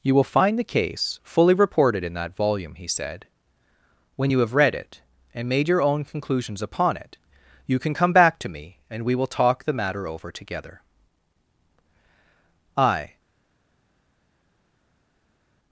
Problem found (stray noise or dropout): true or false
false